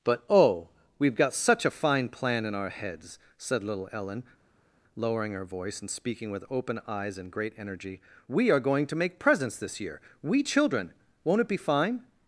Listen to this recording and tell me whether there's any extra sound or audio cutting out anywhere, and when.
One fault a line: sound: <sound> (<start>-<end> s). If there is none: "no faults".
no faults